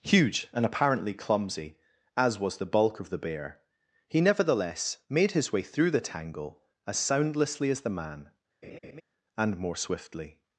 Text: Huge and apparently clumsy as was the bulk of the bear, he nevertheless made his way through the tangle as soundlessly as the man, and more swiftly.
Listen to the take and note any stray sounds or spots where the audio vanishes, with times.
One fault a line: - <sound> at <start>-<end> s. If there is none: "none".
- laugh at 8.6-9.0 s